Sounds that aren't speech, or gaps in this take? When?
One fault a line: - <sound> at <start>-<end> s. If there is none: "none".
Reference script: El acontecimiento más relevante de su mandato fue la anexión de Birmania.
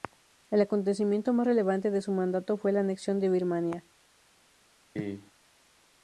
- cough at 5.0-5.3 s